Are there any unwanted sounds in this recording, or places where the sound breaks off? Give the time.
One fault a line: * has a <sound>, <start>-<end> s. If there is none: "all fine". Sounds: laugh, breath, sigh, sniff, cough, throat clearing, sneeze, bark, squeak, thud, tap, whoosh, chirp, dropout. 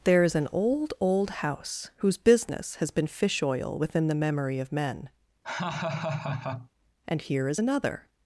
* has a laugh, 5.4-6.7 s